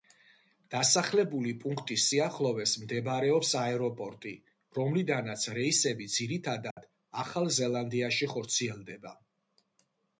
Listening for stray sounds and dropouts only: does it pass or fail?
fail